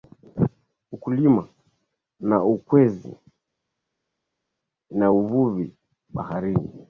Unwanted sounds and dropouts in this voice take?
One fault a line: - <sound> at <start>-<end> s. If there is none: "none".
none